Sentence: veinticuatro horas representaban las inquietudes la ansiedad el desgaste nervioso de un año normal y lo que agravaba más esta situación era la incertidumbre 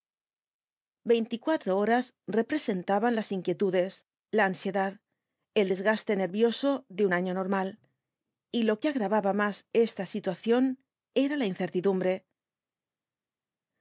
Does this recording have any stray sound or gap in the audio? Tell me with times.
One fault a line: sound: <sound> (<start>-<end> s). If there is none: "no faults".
no faults